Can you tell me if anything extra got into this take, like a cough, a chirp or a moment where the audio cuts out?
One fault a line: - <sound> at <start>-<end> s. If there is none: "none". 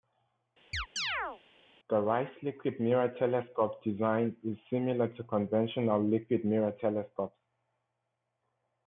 - chirp at 0.7-1.4 s